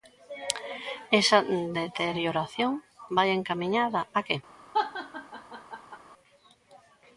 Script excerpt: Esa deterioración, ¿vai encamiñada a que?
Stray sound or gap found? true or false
true